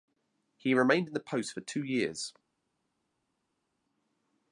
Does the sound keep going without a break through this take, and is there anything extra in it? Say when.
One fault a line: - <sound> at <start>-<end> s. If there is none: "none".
none